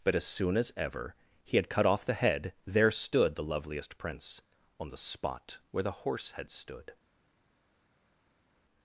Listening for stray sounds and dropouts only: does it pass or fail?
pass